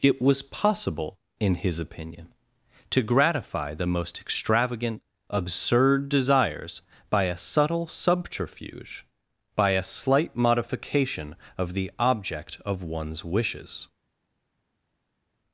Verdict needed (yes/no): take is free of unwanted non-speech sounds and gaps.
yes